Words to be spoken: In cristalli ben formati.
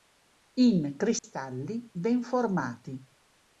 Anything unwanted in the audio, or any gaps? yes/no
yes